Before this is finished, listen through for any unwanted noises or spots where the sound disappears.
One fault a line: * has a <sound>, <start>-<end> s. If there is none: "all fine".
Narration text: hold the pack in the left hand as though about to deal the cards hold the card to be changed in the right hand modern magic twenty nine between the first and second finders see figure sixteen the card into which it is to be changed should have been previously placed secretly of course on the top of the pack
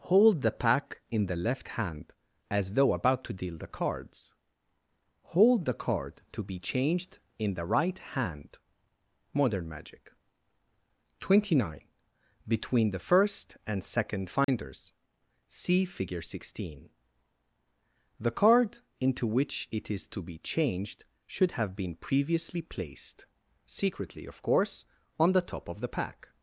* has a dropout, 14.4-14.5 s